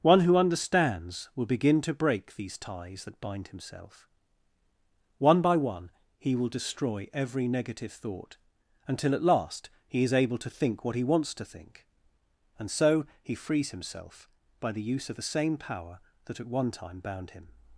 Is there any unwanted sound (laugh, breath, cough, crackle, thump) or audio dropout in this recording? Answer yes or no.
no